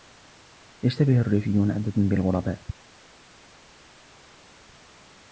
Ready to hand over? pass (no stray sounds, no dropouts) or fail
pass